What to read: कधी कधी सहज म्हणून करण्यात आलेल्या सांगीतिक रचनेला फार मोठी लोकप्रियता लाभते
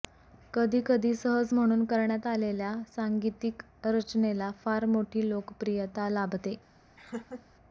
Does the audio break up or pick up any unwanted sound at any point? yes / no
yes